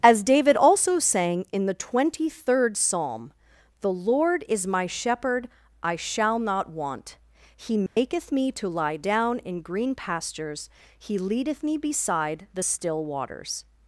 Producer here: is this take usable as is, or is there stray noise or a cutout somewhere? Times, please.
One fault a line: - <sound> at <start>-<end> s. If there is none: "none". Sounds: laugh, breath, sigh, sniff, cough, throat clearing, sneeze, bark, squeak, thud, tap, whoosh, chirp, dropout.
- dropout at 7.9-8.0 s